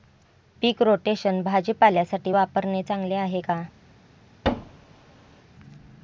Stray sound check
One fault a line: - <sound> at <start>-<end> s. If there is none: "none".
- thud at 4.4-5.4 s